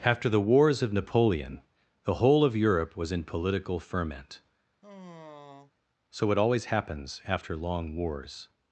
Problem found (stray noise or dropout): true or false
true